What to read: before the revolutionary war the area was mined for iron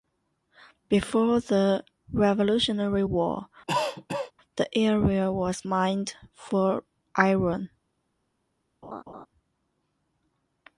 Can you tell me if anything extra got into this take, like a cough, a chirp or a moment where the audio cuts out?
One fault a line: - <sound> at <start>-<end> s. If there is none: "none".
- cough at 3.7-4.3 s
- laugh at 8.8-9.3 s